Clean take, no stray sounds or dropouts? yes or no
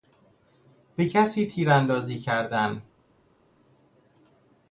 yes